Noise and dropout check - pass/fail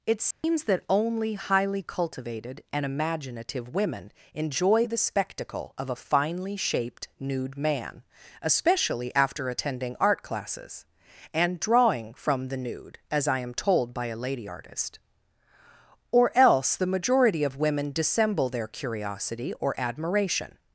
fail